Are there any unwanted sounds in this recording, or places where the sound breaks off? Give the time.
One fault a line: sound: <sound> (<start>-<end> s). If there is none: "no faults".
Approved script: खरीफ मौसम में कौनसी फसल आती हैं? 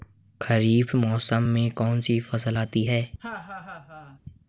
sound: laugh (3.2-4.2 s)